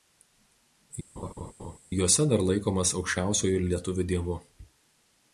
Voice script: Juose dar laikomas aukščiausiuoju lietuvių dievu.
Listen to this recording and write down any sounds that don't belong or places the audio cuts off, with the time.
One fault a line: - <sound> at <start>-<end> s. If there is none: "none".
- laugh at 1.2-1.8 s